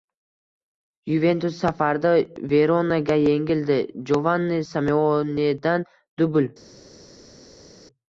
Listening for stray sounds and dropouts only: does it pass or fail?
pass